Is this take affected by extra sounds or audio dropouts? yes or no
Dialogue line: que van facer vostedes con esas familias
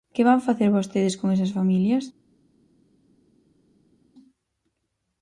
no